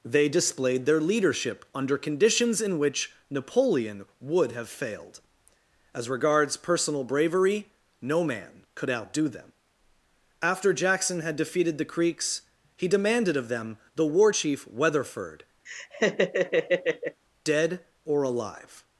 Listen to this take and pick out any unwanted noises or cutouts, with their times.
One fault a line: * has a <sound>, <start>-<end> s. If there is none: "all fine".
* has a laugh, 15.7-17.2 s